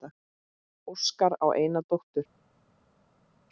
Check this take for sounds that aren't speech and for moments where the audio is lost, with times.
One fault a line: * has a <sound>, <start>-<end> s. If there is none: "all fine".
all fine